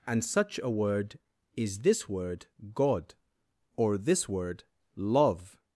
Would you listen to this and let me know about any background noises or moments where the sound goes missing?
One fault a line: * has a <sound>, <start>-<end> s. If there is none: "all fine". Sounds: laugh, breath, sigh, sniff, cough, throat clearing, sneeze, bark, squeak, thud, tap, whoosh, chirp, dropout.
all fine